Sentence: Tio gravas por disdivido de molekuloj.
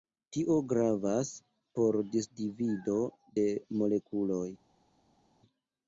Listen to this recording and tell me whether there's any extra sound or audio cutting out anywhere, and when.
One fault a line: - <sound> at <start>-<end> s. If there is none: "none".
none